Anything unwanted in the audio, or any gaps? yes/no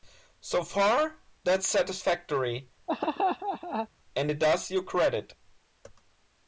yes